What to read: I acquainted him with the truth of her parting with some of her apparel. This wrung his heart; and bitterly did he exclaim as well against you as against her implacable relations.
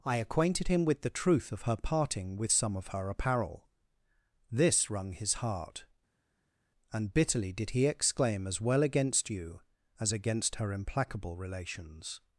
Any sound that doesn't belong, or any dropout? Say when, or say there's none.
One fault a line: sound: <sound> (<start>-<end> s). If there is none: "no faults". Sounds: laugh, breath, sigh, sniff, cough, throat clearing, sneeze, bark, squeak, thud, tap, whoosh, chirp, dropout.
no faults